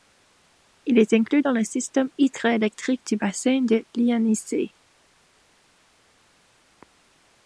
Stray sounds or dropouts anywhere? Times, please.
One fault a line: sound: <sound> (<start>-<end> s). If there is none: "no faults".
no faults